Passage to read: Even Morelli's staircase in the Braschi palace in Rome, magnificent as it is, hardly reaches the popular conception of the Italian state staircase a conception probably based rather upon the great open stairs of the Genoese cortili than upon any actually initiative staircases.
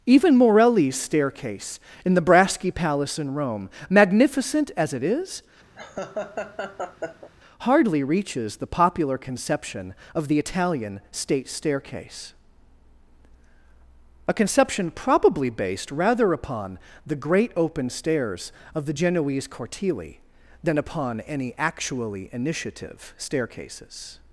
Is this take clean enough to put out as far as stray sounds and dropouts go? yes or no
no